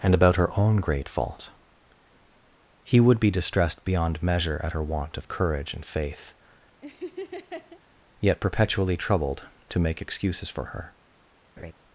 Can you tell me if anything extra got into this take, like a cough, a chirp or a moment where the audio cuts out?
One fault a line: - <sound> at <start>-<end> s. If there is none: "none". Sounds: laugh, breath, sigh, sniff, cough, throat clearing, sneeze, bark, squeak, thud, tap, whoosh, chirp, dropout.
- laugh at 6.8-7.8 s
- laugh at 11.6-11.7 s